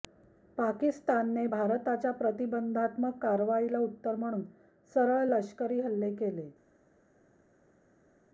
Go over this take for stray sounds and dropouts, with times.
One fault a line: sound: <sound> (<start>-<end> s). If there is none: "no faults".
no faults